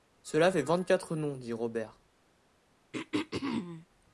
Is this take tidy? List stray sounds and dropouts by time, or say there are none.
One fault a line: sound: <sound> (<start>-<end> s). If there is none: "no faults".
sound: throat clearing (2.9-3.9 s)